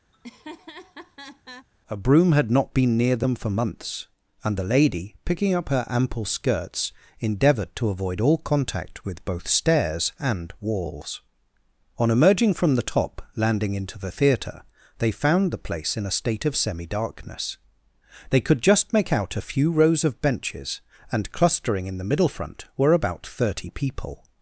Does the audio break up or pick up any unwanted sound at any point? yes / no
yes